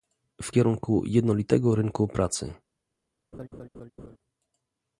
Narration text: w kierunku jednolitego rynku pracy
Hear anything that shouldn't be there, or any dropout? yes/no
yes